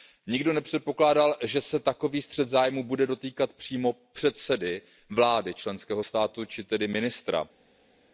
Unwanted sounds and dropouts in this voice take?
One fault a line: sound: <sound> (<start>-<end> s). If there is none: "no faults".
no faults